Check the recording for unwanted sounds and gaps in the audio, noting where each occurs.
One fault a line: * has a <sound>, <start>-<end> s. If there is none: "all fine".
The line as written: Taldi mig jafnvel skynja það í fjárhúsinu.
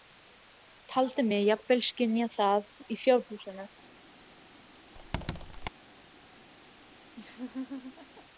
* has a squeak, 4.9-5.7 s
* has a laugh, 7.2-8.3 s